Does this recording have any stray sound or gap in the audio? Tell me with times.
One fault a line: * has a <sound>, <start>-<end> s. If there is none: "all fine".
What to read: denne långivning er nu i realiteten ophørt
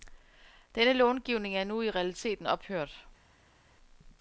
all fine